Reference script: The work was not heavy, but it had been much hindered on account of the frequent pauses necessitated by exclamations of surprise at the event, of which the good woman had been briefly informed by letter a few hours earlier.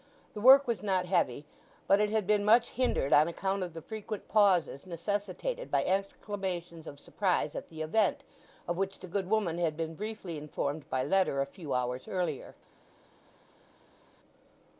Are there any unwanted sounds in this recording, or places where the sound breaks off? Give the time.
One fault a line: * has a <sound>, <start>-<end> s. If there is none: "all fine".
all fine